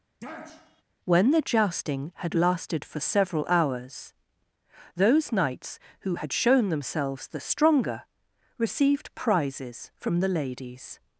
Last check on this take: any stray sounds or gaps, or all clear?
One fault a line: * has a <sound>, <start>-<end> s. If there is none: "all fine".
* has a sniff, 0.2-0.8 s